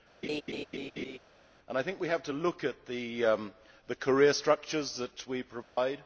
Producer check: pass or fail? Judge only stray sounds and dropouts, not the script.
fail